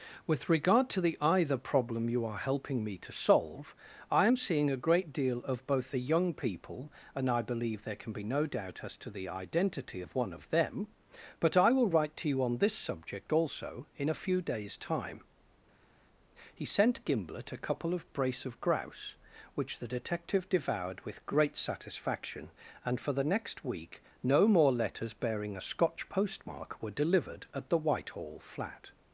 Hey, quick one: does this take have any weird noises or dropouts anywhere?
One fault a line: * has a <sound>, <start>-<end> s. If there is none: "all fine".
all fine